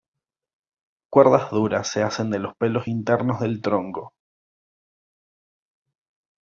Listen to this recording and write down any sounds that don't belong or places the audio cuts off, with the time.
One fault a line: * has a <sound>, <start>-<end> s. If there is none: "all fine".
all fine